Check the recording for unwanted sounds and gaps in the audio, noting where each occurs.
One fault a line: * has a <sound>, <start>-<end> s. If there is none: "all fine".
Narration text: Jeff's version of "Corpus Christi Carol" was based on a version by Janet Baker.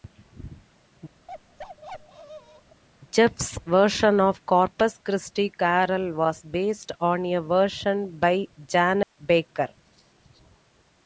* has a bark, 1.3-2.8 s
* has a dropout, 9.0-9.2 s